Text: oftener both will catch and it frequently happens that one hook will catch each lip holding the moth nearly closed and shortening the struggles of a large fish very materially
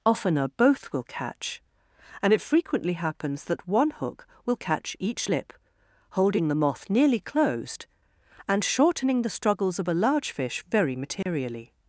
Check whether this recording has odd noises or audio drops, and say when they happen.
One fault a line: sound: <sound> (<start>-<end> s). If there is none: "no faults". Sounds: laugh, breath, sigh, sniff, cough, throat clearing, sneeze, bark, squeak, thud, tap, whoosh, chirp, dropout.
sound: dropout (11.2-11.3 s)